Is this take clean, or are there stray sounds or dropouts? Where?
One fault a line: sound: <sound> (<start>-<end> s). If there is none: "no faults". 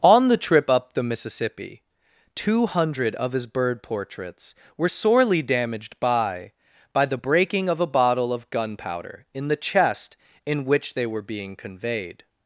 no faults